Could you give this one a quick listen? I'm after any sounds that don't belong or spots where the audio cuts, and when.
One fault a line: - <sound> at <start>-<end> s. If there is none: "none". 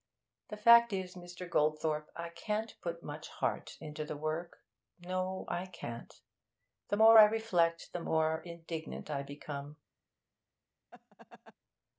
- laugh at 10.9-11.5 s